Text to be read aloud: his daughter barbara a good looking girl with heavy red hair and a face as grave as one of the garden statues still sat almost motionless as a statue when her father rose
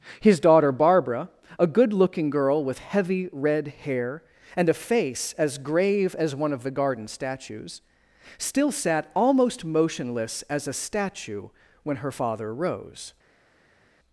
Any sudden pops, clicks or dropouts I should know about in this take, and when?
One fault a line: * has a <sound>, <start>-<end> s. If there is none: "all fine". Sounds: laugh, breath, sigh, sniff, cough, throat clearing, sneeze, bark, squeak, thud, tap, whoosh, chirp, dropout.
all fine